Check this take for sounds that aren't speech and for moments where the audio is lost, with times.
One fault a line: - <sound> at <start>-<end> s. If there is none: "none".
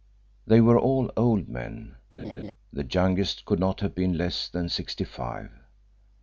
- laugh at 2.2-2.5 s